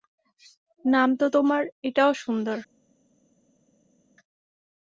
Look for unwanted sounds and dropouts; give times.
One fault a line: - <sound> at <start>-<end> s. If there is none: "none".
none